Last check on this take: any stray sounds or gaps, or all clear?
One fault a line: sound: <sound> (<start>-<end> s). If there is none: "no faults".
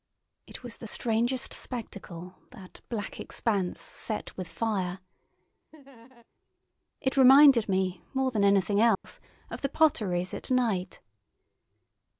sound: laugh (5.7-6.3 s)
sound: dropout (8.9-9.0 s)